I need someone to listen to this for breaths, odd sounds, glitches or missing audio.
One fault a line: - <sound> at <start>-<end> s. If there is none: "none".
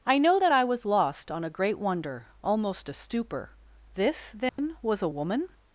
- dropout at 4.5-4.6 s